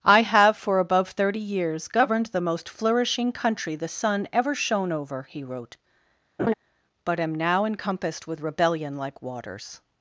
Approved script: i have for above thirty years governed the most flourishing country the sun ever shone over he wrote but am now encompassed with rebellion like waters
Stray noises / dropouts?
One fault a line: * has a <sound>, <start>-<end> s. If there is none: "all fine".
* has a laugh, 6.4-6.5 s